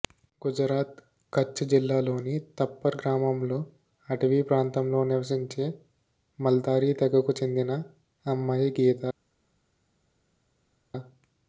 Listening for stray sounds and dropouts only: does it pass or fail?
pass